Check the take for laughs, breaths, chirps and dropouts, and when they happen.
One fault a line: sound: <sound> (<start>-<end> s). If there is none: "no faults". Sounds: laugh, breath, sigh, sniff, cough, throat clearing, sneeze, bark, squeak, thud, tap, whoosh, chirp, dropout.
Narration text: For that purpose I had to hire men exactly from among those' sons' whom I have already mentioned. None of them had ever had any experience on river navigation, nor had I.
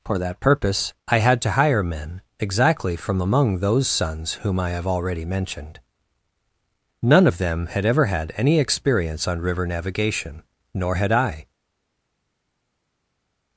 no faults